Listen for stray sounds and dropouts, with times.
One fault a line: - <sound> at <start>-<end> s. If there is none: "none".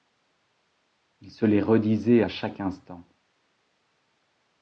none